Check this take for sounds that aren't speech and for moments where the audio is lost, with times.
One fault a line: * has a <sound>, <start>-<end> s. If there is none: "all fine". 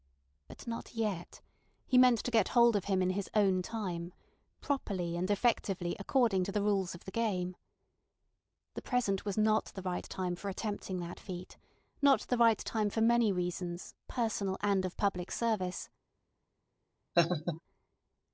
* has a laugh, 17.1-17.6 s